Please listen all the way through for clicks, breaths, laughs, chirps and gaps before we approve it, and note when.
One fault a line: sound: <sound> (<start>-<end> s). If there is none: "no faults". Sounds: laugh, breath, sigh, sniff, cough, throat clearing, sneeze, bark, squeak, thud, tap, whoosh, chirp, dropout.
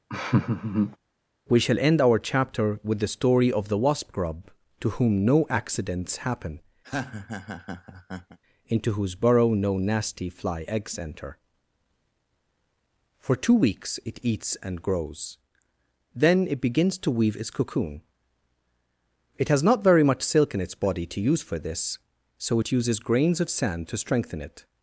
sound: laugh (0.1-1.0 s)
sound: laugh (6.8-8.4 s)